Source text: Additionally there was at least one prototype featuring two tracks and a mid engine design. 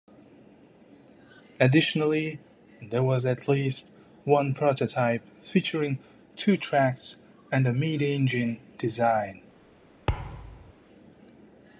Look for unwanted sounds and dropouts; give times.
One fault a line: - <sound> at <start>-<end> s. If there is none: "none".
- thud at 10.1-10.7 s